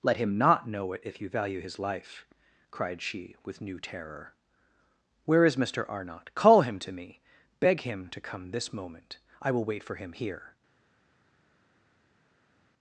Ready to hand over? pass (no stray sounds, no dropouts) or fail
pass